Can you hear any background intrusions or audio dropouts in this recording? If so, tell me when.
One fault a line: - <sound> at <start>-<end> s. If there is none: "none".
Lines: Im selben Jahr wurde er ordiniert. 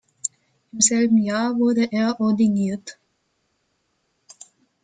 none